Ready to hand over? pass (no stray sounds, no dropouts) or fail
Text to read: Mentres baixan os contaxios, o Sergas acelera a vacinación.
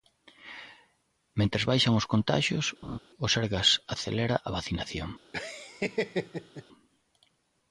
fail